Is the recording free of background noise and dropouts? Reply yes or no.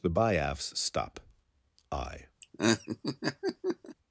no